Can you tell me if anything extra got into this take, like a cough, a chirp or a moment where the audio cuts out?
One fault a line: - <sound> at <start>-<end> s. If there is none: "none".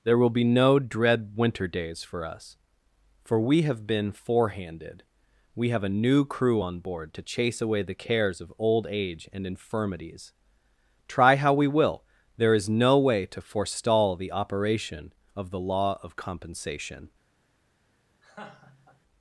- laugh at 18.2-19.0 s